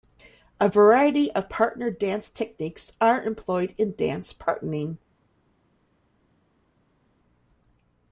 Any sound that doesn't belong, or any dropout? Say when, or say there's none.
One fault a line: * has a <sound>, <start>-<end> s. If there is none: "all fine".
all fine